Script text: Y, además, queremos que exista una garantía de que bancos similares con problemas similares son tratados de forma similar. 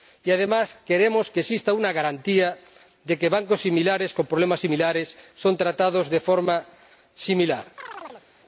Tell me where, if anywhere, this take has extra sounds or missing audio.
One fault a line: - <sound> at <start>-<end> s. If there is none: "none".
- chirp at 7.8-8.3 s